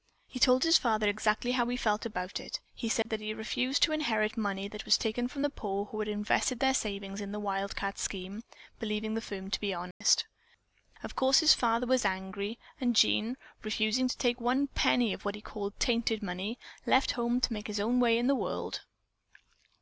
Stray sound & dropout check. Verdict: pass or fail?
fail